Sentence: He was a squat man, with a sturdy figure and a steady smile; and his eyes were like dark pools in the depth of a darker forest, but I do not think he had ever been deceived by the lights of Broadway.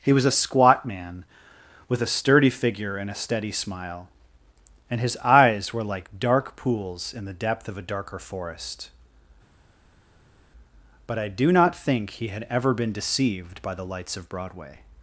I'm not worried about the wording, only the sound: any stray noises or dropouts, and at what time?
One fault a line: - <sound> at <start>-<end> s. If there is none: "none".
none